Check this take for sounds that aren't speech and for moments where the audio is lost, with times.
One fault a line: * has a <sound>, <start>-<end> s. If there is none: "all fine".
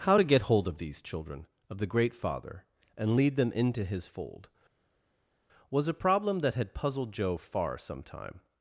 all fine